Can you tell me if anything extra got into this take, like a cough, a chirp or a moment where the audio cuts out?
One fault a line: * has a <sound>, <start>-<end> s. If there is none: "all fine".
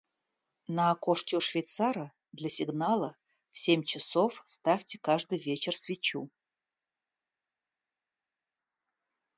all fine